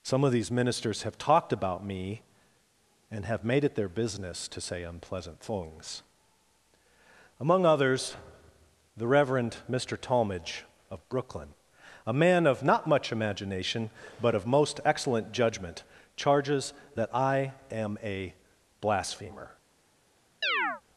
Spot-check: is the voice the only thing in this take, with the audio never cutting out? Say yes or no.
no